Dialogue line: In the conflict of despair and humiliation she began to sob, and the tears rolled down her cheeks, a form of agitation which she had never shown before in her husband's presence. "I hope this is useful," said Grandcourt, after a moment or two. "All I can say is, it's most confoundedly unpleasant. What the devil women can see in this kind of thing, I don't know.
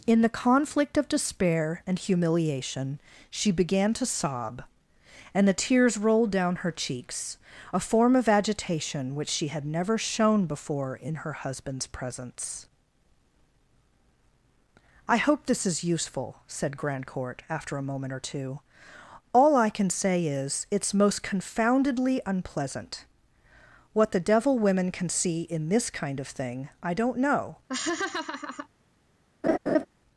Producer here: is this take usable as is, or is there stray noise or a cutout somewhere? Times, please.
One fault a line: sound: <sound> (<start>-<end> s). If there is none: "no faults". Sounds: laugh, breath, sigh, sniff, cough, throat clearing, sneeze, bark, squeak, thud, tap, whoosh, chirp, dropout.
sound: laugh (27.7-28.7 s)
sound: laugh (29.4-29.9 s)